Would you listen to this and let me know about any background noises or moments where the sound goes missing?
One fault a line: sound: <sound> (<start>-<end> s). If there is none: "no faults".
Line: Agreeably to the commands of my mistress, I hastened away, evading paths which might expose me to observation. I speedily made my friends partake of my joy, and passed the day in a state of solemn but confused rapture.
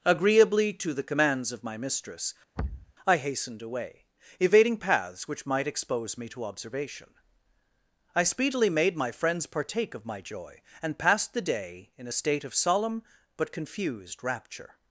sound: thud (2.6-2.9 s)